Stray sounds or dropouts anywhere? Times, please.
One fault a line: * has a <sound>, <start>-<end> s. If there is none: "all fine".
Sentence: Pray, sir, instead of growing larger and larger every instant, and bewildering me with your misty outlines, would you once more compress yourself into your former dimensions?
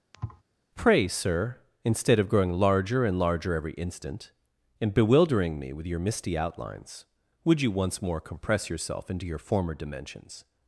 * has a thud, 0.1-0.4 s